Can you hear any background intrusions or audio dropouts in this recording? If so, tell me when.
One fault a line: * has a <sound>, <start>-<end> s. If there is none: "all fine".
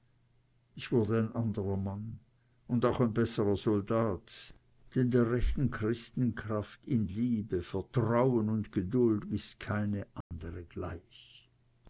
* has a dropout, 10.2-10.3 s